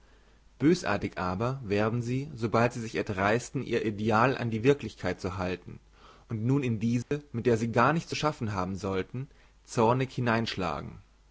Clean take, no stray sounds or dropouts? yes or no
no